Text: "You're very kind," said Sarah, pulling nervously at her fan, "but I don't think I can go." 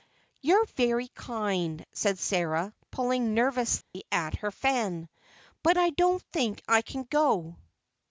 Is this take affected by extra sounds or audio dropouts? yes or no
yes